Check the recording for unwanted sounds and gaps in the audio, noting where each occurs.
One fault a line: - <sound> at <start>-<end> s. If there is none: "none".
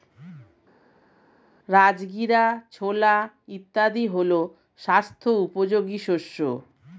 none